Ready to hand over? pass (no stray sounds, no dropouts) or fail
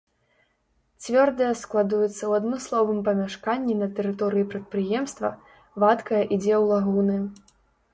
pass